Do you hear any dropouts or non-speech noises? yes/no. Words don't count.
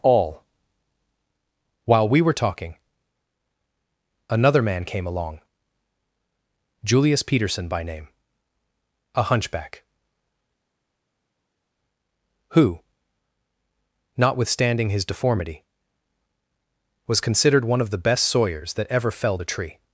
no